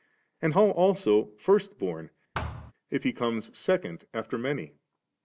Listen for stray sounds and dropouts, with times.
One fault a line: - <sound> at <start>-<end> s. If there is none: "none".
- thud at 2.3-2.7 s